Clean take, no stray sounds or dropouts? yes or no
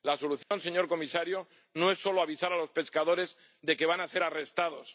no